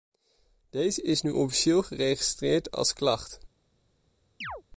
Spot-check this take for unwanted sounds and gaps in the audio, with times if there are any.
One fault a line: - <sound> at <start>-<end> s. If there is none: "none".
- chirp at 4.4-4.6 s